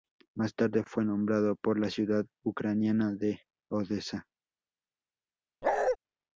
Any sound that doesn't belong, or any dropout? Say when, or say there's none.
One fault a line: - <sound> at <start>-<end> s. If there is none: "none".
- bark at 5.6-6.0 s